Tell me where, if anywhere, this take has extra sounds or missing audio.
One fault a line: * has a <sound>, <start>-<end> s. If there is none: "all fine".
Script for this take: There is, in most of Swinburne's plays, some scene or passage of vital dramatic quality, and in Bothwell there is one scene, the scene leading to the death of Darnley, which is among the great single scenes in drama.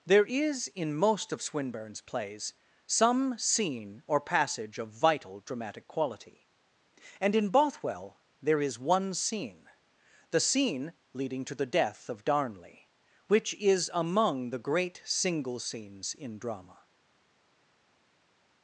all fine